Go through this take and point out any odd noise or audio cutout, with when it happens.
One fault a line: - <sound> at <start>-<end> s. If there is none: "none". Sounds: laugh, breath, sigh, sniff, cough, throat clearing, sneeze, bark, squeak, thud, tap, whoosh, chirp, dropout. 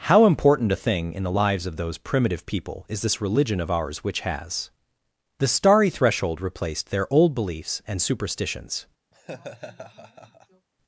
- laugh at 9.1-10.7 s